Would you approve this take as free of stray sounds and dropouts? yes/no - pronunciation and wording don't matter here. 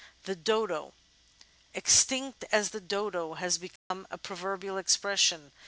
no